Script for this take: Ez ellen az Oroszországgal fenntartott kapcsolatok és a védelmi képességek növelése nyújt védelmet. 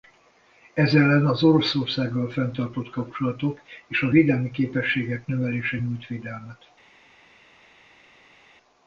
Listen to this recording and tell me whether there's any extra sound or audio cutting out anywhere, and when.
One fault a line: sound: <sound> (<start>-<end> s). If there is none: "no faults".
no faults